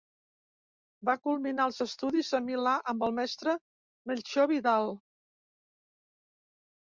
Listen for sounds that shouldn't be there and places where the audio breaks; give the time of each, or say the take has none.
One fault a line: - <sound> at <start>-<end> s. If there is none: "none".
none